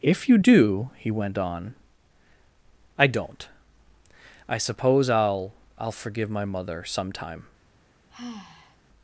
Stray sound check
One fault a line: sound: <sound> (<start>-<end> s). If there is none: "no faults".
sound: sigh (8.1-8.8 s)